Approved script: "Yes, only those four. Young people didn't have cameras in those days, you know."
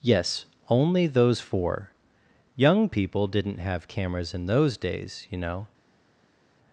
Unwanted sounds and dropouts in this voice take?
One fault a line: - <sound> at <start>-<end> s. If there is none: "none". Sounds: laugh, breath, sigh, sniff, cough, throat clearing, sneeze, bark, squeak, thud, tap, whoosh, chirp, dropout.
none